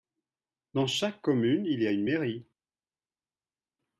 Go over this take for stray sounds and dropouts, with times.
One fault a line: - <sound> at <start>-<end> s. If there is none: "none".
none